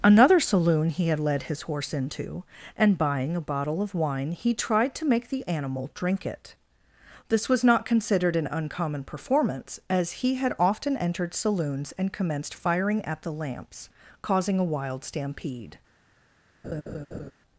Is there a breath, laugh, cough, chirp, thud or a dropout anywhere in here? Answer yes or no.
yes